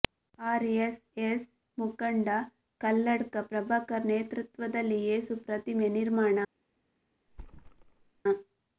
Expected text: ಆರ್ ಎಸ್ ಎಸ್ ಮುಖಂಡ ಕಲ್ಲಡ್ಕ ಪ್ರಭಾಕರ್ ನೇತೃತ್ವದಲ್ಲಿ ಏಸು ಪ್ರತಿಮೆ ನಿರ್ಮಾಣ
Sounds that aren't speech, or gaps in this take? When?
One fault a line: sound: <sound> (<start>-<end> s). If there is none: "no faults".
sound: thud (7.3-8.2 s)